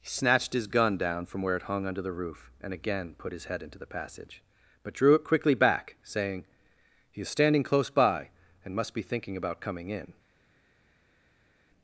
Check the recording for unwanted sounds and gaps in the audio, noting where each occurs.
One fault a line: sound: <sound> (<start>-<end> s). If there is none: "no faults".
no faults